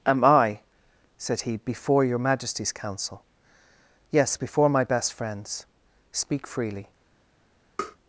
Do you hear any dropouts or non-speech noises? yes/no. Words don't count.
yes